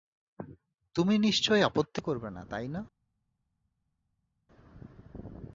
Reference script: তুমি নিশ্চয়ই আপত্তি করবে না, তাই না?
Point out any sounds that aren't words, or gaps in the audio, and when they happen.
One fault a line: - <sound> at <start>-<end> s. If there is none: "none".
none